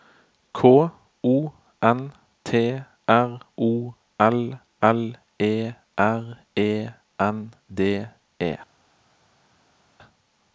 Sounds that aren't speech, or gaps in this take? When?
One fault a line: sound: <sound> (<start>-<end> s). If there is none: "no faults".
no faults